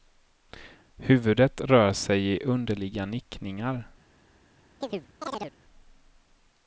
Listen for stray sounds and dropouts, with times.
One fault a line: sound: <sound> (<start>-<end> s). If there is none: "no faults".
sound: chirp (4.8-5.6 s)